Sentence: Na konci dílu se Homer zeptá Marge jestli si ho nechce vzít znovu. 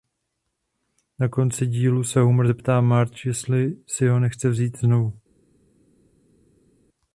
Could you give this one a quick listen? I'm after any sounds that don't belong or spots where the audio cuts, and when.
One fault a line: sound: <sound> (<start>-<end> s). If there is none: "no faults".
no faults